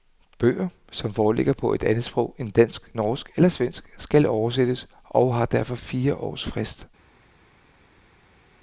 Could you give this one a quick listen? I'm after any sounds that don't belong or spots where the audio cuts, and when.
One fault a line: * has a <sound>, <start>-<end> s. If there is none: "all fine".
all fine